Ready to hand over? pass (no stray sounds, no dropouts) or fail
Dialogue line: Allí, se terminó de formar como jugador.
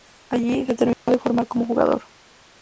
fail